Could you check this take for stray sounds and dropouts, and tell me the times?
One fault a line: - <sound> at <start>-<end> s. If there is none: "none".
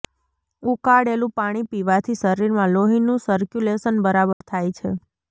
- dropout at 4.3-4.4 s